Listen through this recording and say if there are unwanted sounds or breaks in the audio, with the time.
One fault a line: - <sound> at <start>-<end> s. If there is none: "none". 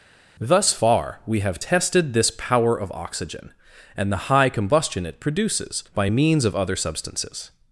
none